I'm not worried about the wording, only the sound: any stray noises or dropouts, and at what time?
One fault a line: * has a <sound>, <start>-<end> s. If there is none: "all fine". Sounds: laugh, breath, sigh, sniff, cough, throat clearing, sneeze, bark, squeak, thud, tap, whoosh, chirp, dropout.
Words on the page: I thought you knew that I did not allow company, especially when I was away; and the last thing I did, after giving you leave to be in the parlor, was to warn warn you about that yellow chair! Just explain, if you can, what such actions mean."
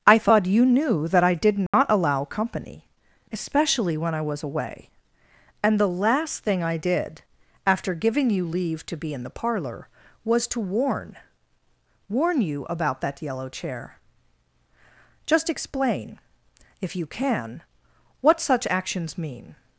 * has a dropout, 1.7-1.7 s